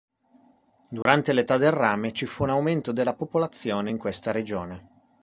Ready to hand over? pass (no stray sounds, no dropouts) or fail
fail